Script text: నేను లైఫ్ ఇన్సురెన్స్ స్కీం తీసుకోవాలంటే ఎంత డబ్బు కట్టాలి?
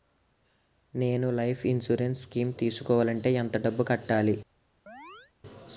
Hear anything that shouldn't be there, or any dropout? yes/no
yes